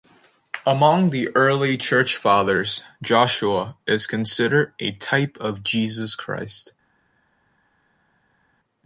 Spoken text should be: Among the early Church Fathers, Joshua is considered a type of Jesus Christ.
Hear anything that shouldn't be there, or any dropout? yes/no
no